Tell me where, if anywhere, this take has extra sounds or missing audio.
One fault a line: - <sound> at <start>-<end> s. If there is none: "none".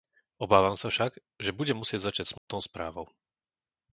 - dropout at 2.4-2.5 s